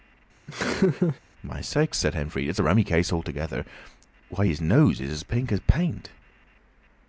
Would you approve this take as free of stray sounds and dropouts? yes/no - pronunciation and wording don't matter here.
no